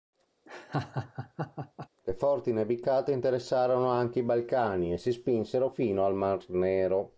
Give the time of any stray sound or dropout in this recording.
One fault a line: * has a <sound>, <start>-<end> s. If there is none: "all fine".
* has a laugh, 0.5-1.9 s